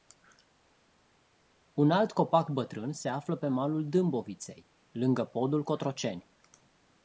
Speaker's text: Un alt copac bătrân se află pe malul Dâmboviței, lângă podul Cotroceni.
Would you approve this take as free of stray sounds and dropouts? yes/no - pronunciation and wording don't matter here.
yes